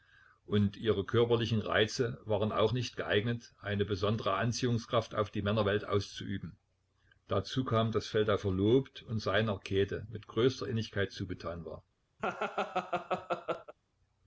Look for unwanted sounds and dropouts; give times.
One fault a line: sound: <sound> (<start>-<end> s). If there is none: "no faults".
sound: laugh (12.2-13.7 s)